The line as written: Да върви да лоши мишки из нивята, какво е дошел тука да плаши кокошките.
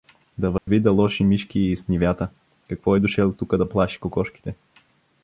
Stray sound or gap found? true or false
true